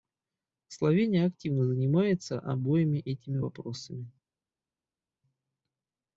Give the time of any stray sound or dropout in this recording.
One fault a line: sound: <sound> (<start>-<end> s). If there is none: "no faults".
no faults